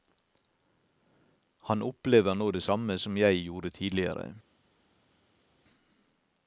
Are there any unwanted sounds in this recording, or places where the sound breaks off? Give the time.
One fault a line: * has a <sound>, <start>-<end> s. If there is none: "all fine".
all fine